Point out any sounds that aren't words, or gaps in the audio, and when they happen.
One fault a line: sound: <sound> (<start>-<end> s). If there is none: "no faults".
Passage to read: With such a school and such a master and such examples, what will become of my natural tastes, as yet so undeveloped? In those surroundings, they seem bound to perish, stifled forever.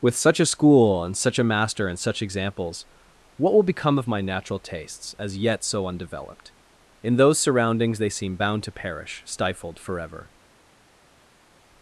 no faults